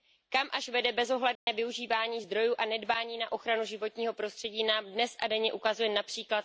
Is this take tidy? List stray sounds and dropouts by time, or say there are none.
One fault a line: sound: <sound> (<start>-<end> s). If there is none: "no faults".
sound: dropout (1.4-1.5 s)